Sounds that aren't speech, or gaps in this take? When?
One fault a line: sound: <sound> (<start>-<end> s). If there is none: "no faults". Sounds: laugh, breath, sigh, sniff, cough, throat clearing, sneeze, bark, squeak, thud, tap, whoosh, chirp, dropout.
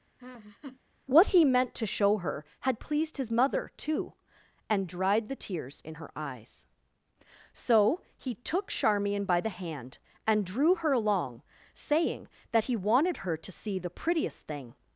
sound: laugh (0.2-0.8 s)